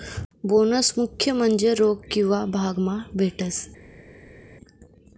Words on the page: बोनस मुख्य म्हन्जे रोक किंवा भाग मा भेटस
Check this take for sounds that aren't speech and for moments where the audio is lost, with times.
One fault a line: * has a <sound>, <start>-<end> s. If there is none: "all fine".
all fine